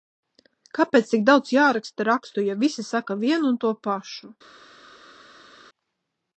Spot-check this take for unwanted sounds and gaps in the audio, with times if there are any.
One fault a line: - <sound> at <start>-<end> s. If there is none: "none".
none